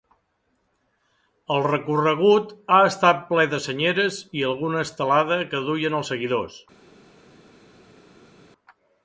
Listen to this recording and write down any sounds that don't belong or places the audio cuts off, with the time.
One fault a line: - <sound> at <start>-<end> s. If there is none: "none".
none